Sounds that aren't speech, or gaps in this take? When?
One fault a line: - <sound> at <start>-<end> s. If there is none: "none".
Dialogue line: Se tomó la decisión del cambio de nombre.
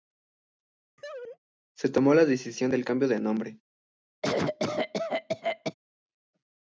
- laugh at 1.0-1.4 s
- cough at 4.2-5.7 s